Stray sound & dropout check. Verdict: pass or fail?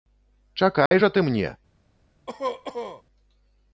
fail